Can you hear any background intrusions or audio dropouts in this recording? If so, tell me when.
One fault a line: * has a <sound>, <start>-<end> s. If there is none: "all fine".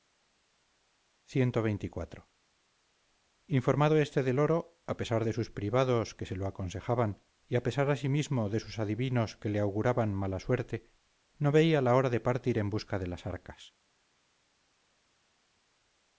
all fine